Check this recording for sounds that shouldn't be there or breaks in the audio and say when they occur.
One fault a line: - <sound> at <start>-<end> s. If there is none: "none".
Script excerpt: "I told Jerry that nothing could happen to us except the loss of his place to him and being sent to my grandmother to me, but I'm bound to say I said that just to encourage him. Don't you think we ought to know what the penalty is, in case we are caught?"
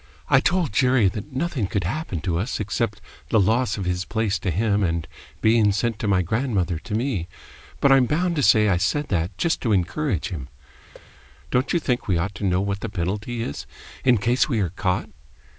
- thud at 10.9-11.1 s